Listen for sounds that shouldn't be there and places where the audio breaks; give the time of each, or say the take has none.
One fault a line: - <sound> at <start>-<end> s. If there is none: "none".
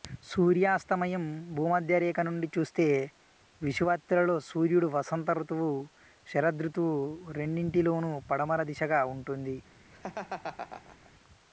- laugh at 9.9-11.1 s